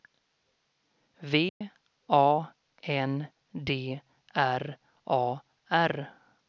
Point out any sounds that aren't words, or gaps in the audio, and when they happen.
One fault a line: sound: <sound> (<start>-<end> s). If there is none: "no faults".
sound: dropout (1.5-1.6 s)